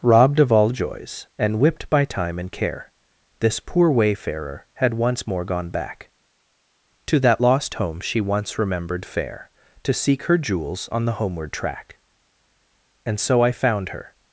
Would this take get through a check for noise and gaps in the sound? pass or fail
pass